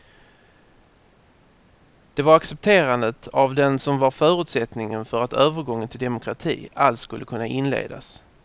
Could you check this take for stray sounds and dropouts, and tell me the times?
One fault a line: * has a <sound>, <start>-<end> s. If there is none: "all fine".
all fine